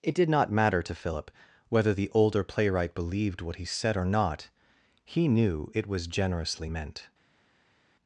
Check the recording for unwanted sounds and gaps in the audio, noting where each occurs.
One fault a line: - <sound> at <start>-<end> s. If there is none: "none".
none